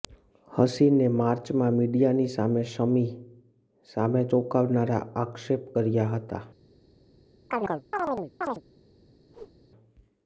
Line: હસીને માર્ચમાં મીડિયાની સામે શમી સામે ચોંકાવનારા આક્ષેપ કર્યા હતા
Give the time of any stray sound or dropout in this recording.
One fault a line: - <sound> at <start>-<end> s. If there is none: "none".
- chirp at 7.5-8.6 s
- whoosh at 9.3-9.6 s